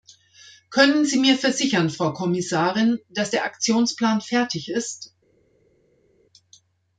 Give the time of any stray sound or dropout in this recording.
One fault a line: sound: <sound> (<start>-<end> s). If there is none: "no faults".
no faults